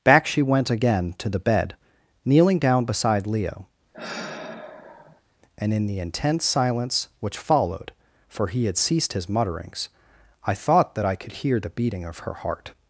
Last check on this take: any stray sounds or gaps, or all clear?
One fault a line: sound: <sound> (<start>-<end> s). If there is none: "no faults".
sound: sigh (3.9-5.2 s)